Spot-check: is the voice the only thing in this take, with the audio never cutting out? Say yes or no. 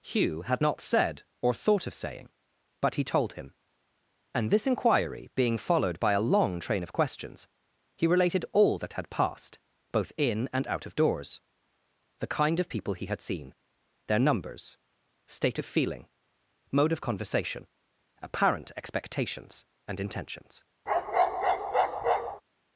no